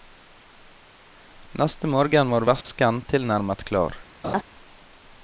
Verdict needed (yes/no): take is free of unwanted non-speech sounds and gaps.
no